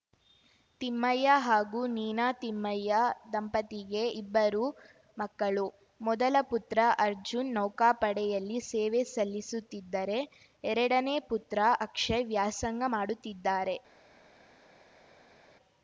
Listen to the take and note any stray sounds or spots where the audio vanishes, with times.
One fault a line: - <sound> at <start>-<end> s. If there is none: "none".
none